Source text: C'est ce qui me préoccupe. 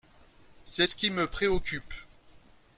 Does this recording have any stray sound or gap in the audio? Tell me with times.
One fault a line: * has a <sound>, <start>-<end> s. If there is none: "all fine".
all fine